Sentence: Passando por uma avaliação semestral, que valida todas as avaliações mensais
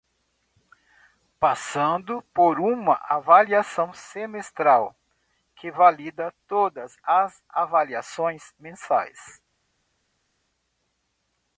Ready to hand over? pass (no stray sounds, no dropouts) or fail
pass